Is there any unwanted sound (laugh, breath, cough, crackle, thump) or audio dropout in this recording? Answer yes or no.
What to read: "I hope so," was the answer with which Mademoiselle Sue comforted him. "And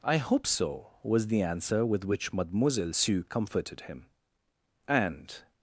no